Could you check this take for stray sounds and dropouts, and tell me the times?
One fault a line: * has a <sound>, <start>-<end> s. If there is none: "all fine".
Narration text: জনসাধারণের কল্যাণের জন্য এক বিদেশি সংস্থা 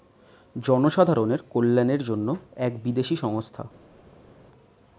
all fine